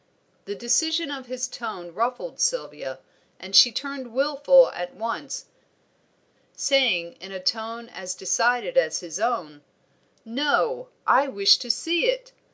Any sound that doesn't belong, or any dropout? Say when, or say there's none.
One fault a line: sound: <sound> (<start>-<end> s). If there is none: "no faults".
no faults